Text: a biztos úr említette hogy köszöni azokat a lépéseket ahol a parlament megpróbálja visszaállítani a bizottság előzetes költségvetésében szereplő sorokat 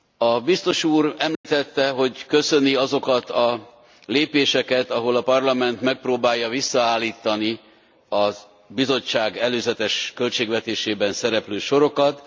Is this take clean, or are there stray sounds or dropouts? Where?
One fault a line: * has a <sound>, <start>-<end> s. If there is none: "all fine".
* has a dropout, 1.3-1.4 s